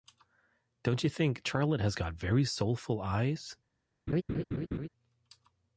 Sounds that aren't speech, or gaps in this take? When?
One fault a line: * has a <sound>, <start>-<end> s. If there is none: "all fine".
* has a laugh, 4.1-4.9 s